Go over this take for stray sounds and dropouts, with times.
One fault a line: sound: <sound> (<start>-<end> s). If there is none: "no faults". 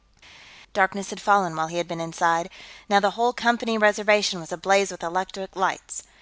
no faults